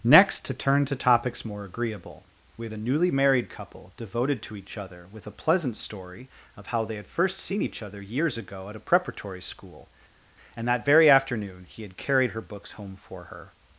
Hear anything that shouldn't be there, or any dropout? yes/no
no